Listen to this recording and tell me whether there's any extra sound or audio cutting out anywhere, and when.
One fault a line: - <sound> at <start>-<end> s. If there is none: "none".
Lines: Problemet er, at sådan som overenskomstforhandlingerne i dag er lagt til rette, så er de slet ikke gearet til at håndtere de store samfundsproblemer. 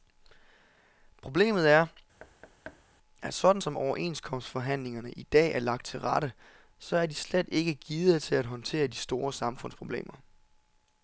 - thud at 2.2-2.8 s